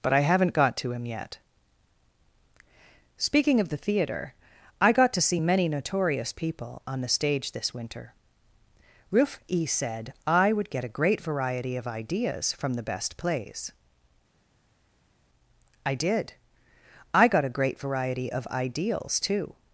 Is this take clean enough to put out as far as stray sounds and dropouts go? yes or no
yes